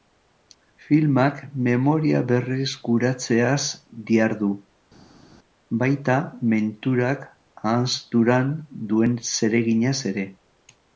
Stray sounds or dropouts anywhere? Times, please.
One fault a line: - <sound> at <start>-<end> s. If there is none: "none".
none